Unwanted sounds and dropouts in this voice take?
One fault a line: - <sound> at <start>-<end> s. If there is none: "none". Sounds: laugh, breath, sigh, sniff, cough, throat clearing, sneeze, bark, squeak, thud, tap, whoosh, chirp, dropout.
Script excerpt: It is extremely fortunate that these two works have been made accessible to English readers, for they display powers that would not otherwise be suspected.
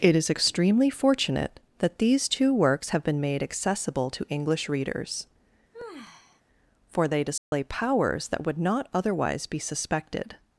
- sigh at 5.7-6.4 s
- dropout at 7.4-7.5 s